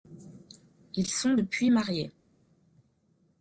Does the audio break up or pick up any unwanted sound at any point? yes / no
no